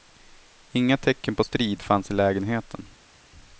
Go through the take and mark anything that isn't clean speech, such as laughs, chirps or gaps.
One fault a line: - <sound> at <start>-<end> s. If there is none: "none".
none